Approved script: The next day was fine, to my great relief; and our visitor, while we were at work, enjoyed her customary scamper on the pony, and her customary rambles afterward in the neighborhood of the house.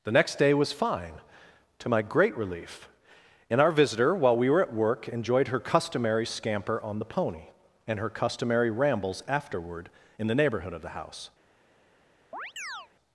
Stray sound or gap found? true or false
true